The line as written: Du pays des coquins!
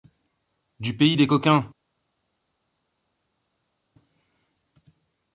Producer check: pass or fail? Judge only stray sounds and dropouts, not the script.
pass